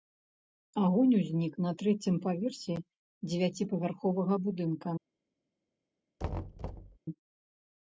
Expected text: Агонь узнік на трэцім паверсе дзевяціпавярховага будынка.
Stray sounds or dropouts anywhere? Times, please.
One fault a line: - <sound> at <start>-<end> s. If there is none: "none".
- thud at 6.2-7.0 s